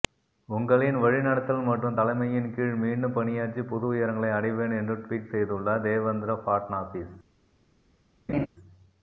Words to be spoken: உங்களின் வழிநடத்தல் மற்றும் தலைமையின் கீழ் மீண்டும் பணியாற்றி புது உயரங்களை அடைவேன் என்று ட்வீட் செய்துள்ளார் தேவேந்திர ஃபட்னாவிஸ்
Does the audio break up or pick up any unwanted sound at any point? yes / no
yes